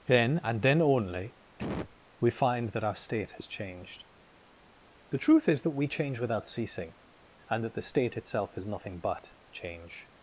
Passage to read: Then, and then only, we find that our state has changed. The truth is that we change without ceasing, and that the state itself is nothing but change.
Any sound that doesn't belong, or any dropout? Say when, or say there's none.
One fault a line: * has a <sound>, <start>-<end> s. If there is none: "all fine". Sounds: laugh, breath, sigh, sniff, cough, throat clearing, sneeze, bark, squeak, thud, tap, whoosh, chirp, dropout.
* has a cough, 1.6-2.0 s